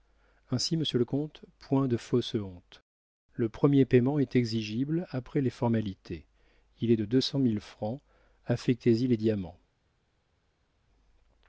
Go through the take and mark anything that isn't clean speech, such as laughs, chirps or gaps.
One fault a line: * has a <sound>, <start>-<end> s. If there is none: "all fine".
all fine